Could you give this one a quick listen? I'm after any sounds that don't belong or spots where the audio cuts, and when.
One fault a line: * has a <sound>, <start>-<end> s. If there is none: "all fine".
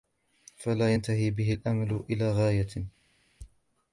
all fine